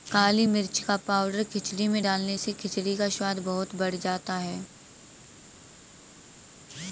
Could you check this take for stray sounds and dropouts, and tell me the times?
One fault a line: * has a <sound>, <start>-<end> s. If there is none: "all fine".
all fine